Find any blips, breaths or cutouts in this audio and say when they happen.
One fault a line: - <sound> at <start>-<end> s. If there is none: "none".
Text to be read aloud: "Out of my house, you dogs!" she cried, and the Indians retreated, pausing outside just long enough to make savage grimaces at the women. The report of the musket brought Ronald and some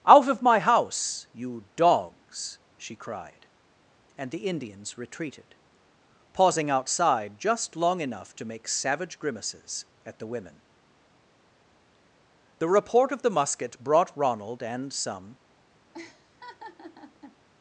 - laugh at 15.9-17.4 s